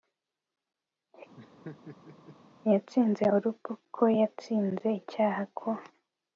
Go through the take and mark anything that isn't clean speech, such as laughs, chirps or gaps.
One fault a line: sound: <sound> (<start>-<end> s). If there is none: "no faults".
sound: laugh (1.4-2.4 s)